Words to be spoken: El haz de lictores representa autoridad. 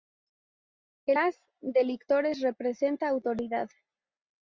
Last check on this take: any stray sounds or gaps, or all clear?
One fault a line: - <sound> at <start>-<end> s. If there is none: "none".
none